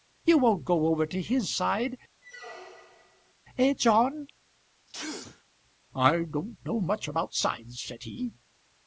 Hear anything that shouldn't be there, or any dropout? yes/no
yes